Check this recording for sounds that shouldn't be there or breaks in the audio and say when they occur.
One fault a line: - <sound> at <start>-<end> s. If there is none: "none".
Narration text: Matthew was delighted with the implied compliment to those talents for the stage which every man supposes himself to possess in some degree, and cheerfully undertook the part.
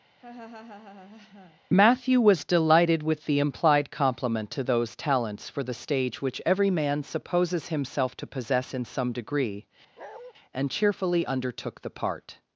- laugh at 0.2-1.6 s
- bark at 10.0-10.3 s